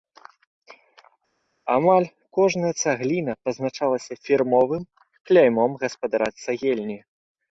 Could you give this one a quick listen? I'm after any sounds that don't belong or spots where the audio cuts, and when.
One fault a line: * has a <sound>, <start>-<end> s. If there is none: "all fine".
all fine